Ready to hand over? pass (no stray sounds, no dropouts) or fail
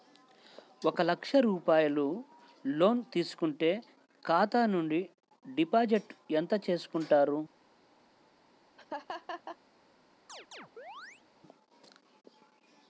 fail